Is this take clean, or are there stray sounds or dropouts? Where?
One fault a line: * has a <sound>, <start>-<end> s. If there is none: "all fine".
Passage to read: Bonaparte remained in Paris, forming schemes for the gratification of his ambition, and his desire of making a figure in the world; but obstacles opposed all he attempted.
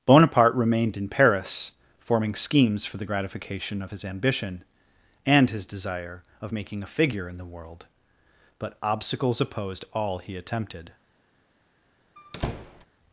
* has a squeak, 12.2-12.9 s